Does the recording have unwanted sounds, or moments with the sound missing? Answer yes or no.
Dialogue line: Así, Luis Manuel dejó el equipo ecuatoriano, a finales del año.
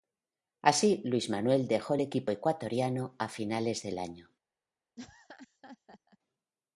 yes